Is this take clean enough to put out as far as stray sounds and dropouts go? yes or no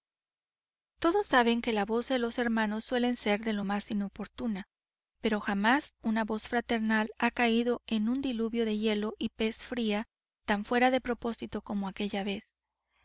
yes